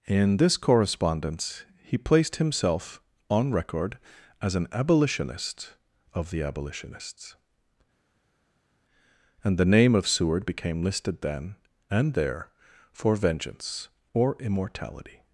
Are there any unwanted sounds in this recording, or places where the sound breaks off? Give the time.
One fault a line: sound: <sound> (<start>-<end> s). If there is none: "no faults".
no faults